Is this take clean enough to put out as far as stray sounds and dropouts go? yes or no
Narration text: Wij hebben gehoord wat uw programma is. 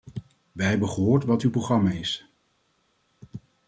yes